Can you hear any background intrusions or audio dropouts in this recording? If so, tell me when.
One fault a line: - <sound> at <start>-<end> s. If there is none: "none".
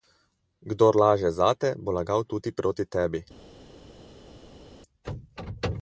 none